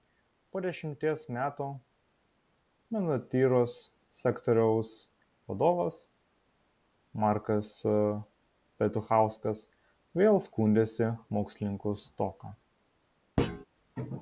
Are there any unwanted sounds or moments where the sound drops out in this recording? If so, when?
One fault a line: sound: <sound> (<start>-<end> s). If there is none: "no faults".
sound: thud (13.4-13.7 s)